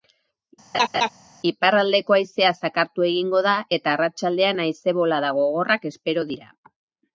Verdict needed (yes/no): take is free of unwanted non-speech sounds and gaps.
no